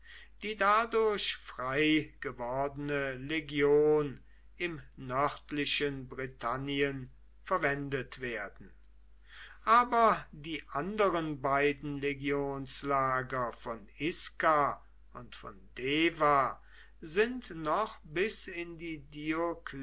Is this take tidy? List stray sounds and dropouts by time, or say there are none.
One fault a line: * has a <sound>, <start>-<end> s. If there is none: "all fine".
all fine